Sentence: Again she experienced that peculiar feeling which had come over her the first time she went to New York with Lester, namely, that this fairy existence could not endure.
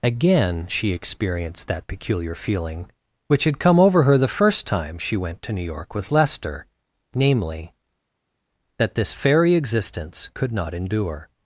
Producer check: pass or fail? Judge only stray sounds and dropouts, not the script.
pass